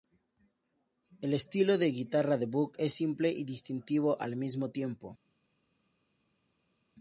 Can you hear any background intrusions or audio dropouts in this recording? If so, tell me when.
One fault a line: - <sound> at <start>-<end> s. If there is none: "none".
none